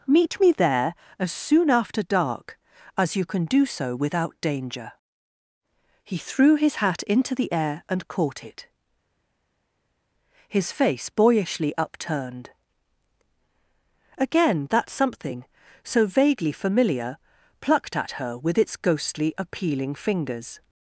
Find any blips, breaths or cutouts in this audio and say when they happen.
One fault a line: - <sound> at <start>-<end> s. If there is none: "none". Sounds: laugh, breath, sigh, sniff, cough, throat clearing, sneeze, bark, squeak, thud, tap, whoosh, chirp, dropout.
none